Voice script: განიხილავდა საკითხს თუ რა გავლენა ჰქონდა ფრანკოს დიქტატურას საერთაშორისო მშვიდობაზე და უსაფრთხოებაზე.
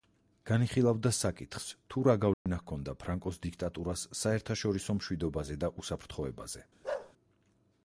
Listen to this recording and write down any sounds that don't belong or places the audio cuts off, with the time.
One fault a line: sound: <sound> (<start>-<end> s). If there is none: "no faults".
sound: dropout (2.3-2.5 s)
sound: bark (6.8-7.1 s)